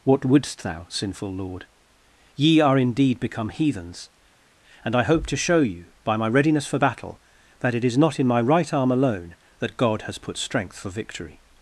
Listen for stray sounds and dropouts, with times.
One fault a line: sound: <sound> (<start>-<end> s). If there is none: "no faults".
no faults